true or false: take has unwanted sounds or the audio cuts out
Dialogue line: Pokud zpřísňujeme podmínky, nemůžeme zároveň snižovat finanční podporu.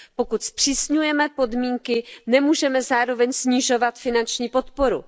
false